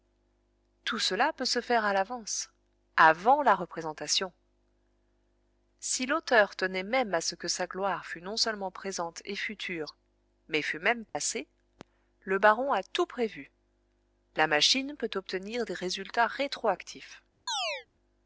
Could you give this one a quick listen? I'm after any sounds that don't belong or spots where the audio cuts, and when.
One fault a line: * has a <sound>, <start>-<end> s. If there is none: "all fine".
* has a dropout, 11.1-11.2 s
* has a chirp, 17.5-17.9 s